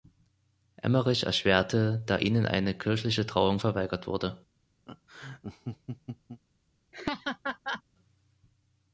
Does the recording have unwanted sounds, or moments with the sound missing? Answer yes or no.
yes